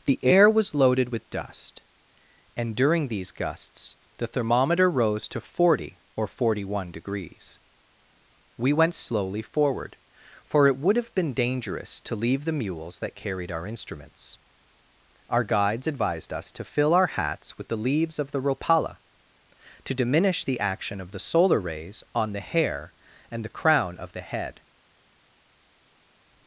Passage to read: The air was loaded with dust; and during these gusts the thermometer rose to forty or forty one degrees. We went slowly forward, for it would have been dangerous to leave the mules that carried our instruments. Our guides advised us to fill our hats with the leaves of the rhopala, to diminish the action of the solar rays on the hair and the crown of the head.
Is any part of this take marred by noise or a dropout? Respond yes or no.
no